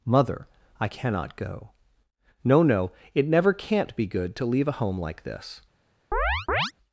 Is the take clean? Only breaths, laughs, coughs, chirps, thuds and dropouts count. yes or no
no